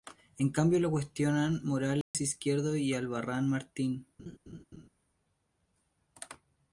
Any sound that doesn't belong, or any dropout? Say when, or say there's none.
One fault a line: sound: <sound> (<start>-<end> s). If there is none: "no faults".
sound: dropout (2.0-2.1 s)
sound: laugh (4.2-4.9 s)